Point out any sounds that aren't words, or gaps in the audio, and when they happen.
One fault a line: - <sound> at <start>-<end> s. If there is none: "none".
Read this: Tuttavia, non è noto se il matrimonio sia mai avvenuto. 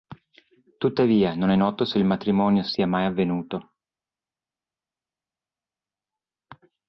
none